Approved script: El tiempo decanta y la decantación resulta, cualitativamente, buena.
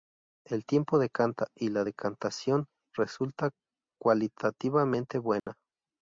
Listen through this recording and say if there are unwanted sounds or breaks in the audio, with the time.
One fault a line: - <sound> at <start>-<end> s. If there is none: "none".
- dropout at 5.4-5.5 s